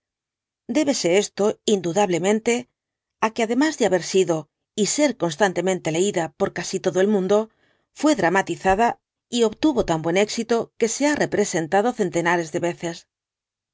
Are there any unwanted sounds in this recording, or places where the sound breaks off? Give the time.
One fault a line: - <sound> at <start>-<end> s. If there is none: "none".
none